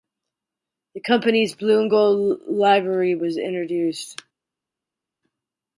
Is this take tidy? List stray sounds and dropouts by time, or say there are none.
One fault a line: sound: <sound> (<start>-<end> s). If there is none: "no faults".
no faults